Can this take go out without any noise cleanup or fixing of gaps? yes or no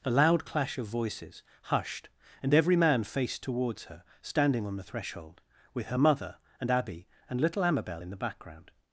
yes